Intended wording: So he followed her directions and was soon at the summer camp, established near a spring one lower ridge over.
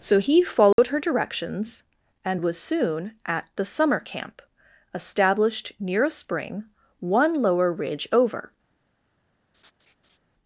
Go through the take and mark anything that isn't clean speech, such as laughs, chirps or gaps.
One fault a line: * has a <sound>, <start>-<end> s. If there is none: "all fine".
* has a dropout, 0.7-0.8 s
* has a laugh, 9.5-10.2 s